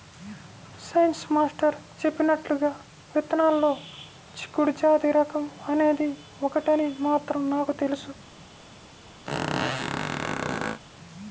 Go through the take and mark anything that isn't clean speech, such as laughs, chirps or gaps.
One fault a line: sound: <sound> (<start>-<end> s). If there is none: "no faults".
sound: squeak (9.3-10.8 s)